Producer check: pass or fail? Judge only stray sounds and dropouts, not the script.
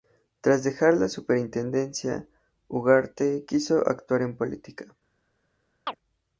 fail